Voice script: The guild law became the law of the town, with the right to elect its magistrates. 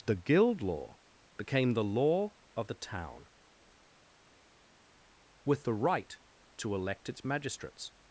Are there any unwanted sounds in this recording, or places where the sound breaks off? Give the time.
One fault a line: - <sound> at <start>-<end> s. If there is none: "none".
none